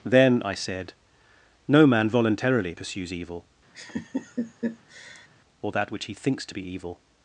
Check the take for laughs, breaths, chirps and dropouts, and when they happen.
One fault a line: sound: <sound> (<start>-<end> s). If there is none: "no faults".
sound: laugh (3.7-5.3 s)